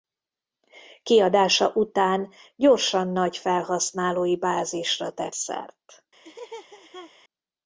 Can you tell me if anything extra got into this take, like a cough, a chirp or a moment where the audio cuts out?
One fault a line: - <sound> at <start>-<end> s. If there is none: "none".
- laugh at 6.2-7.1 s